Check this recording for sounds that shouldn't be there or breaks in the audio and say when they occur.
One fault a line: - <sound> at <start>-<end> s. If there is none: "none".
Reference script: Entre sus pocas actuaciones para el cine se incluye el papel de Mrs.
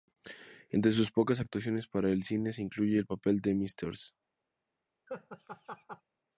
- laugh at 5.1-6.0 s